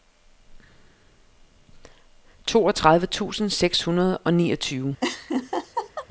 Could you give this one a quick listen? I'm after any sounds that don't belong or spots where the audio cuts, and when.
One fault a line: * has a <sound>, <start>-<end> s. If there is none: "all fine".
* has a laugh, 5.0-6.1 s